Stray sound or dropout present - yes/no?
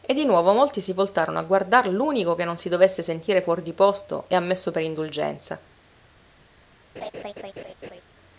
yes